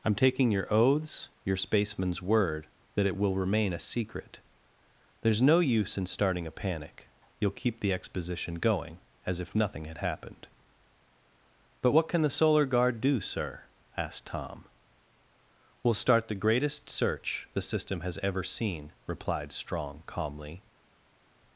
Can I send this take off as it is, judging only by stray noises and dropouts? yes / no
yes